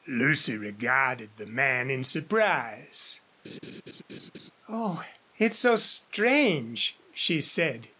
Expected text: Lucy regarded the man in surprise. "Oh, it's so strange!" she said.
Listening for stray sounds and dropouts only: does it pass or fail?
fail